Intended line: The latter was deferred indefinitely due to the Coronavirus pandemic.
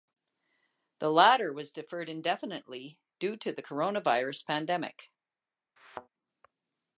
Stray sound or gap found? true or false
true